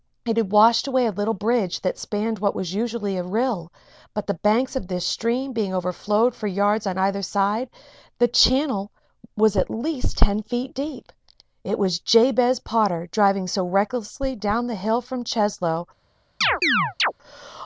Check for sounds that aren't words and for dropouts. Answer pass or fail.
fail